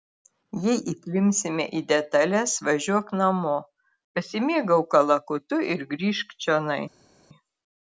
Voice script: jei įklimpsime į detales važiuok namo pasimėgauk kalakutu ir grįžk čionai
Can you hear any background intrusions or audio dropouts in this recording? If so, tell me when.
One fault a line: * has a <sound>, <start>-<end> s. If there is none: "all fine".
all fine